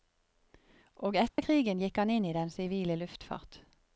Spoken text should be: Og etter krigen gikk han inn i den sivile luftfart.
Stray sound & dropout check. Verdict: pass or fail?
fail